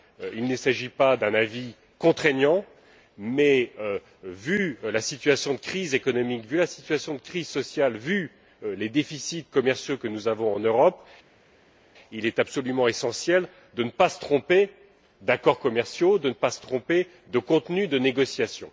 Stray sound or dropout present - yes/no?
no